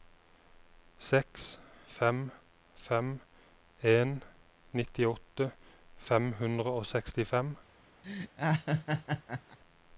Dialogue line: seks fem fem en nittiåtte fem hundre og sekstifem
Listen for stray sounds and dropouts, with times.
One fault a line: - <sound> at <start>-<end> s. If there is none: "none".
- laugh at 8.0-9.6 s